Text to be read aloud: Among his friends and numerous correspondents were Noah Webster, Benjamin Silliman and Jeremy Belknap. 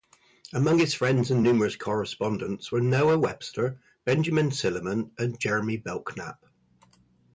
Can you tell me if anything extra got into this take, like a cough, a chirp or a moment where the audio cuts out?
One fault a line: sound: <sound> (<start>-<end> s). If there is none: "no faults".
no faults